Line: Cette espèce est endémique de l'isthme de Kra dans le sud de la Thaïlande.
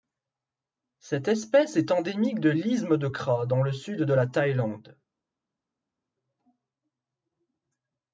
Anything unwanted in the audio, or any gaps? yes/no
no